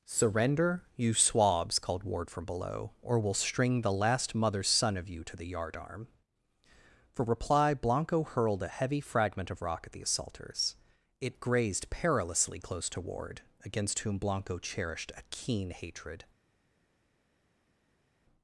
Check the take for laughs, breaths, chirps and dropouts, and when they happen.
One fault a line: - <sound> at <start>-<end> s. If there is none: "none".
none